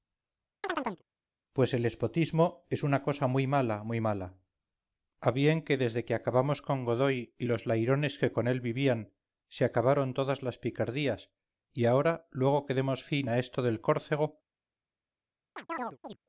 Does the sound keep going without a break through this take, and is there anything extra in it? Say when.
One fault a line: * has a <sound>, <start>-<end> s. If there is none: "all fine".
* has a chirp, 0.6-1.0 s
* has a chirp, 15.6-16.2 s